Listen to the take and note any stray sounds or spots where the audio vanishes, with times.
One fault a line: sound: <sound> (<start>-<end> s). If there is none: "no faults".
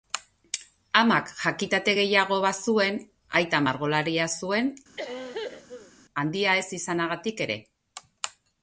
sound: cough (5.0-5.9 s)